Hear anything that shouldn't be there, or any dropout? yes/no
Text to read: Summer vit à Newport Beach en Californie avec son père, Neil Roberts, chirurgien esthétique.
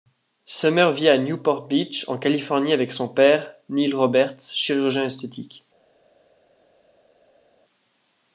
no